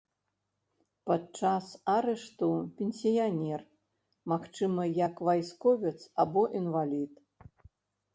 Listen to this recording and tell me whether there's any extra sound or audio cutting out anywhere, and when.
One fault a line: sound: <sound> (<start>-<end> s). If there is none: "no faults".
no faults